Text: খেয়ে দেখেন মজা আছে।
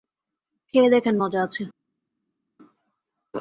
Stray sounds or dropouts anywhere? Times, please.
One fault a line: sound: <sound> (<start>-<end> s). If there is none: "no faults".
no faults